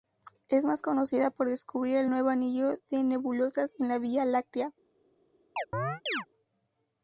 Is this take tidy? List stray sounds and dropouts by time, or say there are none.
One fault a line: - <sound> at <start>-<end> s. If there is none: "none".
- chirp at 5.6-6.3 s